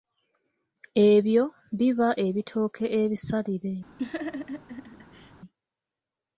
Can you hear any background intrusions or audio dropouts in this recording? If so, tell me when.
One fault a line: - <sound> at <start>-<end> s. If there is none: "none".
- laugh at 4.0-5.3 s